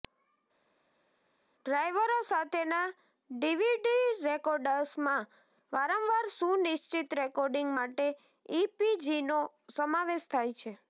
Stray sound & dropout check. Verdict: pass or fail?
pass